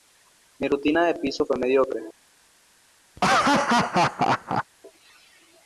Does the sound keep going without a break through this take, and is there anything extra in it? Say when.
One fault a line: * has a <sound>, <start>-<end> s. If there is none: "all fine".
* has a laugh, 3.2-4.6 s